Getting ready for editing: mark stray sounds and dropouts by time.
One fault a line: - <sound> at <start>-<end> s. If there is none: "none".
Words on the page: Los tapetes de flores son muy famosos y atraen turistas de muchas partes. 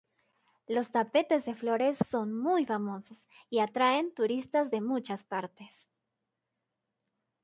none